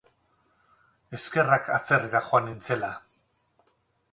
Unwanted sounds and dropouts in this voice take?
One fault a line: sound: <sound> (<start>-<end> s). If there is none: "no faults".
no faults